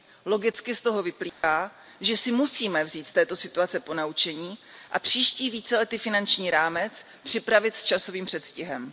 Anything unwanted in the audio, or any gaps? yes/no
yes